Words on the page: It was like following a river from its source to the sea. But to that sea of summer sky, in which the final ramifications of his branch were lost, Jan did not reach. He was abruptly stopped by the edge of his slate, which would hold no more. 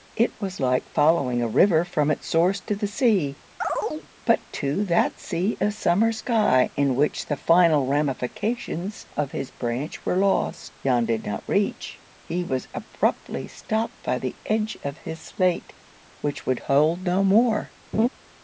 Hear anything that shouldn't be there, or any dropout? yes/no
yes